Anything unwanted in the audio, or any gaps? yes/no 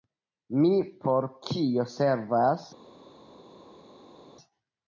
no